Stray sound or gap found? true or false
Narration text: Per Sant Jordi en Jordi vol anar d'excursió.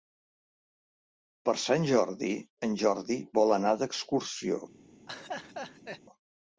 true